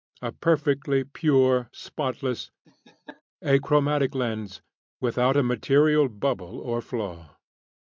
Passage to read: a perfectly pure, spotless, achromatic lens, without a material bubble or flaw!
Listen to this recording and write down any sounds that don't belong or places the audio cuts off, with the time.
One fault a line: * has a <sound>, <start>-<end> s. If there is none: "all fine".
* has a laugh, 2.6-3.2 s